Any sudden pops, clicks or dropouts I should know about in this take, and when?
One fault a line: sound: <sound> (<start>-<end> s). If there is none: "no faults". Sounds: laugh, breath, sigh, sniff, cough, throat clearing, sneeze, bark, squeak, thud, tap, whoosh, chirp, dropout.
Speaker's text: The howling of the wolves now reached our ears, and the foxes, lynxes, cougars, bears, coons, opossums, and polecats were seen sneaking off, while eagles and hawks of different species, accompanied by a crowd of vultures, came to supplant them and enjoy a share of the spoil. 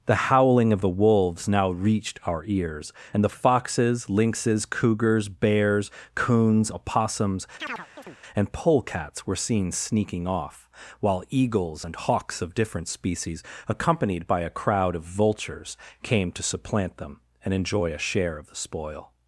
sound: chirp (7.6-8.2 s)